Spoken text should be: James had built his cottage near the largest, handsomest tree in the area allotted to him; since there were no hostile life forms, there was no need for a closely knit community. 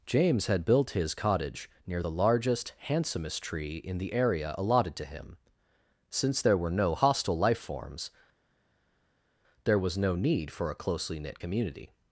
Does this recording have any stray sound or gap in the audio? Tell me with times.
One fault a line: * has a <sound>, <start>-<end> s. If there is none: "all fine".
all fine